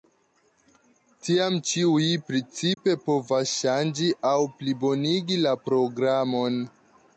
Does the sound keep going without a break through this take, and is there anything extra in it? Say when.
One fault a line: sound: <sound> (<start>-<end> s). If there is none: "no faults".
sound: dropout (2.7-2.8 s)